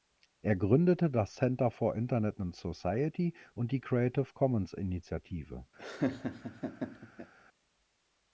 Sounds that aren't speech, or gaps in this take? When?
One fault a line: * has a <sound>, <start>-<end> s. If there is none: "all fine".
* has a laugh, 5.8-7.3 s